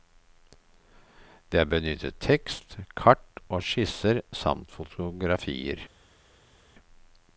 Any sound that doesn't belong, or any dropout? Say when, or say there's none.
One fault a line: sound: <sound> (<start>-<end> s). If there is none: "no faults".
no faults